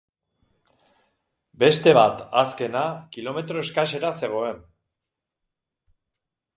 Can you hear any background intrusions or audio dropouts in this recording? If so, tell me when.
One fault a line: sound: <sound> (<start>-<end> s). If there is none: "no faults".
no faults